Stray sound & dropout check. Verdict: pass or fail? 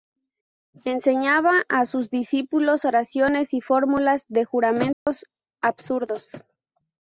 fail